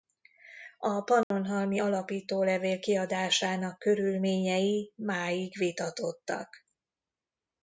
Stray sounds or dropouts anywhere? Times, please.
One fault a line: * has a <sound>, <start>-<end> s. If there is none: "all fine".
* has a dropout, 1.2-1.3 s